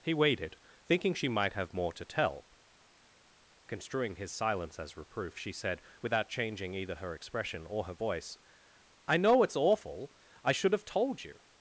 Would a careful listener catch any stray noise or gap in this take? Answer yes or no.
no